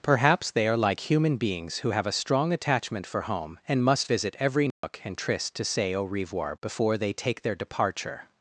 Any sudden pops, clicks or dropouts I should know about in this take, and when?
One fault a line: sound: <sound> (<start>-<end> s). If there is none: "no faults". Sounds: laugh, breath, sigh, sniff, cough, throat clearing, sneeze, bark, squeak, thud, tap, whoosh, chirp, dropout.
sound: dropout (4.7-4.8 s)